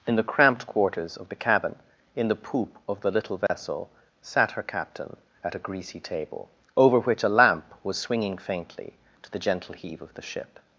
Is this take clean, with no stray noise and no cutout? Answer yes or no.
no